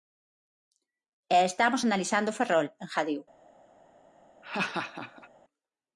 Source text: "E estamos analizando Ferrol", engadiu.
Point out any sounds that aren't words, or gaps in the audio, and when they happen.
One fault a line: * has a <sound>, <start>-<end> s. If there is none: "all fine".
* has a laugh, 4.4-5.3 s